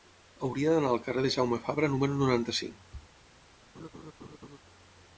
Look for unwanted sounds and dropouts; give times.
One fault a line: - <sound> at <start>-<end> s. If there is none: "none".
- laugh at 3.7-4.6 s